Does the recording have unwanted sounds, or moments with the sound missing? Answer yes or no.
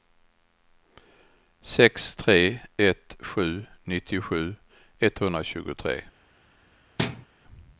yes